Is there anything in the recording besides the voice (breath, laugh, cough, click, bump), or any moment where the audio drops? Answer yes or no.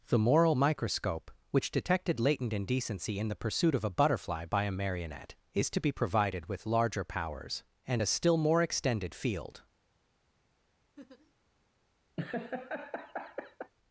yes